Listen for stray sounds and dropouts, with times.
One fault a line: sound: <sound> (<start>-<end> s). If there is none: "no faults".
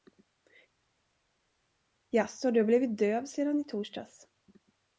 no faults